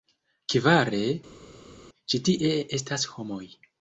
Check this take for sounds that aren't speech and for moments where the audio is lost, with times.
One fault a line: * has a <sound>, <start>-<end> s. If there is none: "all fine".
all fine